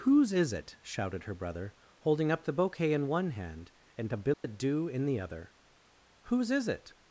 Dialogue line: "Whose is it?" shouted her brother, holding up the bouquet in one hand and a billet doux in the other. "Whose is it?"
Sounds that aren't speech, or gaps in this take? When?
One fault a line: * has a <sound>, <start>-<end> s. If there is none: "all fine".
* has a dropout, 4.3-4.4 s